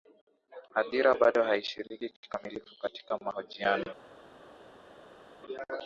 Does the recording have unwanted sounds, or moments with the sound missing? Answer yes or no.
no